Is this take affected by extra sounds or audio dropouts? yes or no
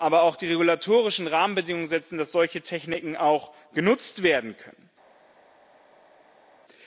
no